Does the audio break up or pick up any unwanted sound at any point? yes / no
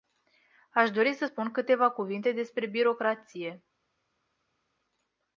no